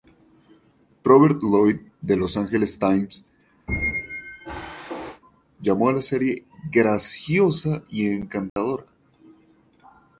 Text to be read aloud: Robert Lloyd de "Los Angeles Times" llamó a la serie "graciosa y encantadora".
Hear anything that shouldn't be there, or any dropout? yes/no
yes